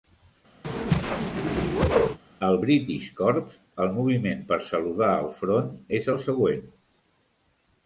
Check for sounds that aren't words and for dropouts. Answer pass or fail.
fail